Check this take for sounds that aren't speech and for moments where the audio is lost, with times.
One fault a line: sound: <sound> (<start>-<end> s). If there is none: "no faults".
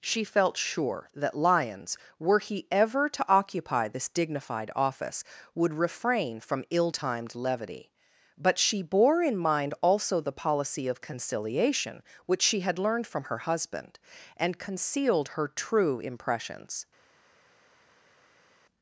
no faults